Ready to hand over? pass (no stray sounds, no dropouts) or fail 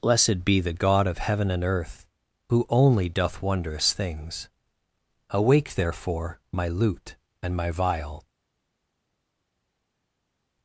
pass